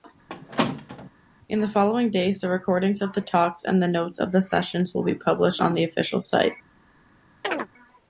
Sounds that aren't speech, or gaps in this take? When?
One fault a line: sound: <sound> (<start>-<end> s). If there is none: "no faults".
sound: squeak (0.3-1.1 s)
sound: chirp (7.4-7.7 s)